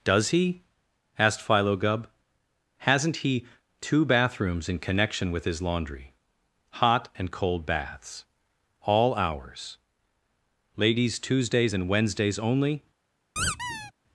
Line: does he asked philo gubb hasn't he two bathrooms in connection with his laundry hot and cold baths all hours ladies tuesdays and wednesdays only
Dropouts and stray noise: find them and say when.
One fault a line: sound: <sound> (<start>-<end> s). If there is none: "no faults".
sound: squeak (13.4-13.9 s)